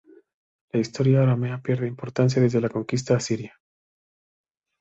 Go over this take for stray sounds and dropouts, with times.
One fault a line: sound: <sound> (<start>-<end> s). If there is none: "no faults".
no faults